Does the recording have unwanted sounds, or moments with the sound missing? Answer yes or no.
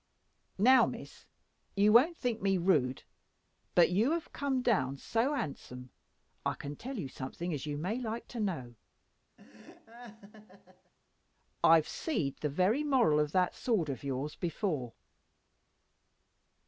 yes